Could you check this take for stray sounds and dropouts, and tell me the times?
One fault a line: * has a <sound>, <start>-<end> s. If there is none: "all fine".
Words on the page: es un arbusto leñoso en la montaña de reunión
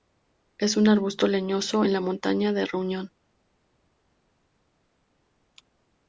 all fine